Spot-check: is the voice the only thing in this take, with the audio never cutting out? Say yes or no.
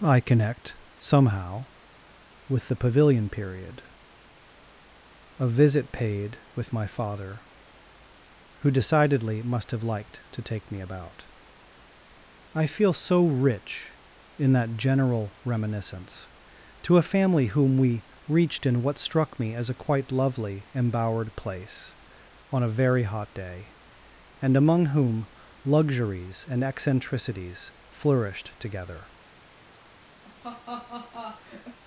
no